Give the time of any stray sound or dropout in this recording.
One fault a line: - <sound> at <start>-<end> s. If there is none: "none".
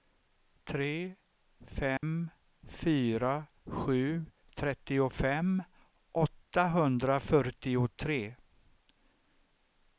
- dropout at 2.0-2.0 s